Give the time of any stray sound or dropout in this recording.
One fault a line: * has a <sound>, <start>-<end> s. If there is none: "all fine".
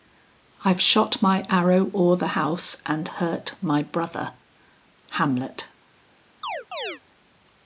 * has a chirp, 6.4-7.0 s